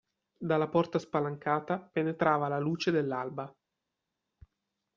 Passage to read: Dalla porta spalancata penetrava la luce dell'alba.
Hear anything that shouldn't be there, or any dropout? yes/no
no